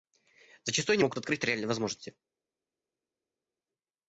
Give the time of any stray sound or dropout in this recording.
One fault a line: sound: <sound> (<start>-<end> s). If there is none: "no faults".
no faults